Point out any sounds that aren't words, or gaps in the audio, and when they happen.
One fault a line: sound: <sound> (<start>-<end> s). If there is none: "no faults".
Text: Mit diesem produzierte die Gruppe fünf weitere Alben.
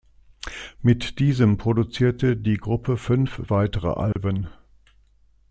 sound: dropout (4.1-4.2 s)